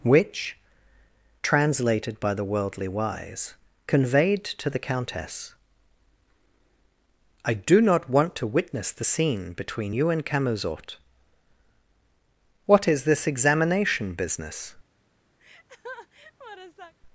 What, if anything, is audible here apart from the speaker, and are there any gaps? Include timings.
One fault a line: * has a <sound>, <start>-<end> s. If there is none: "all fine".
* has a laugh, 15.4-16.9 s